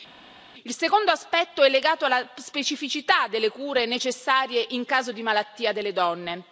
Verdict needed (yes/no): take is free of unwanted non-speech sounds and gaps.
yes